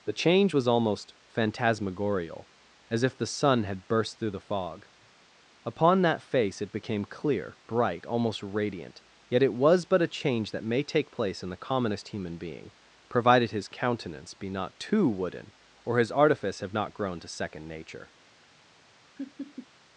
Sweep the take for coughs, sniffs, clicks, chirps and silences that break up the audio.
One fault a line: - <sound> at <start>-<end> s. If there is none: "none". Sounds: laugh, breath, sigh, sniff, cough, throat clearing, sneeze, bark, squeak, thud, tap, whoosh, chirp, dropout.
- laugh at 19.2-19.7 s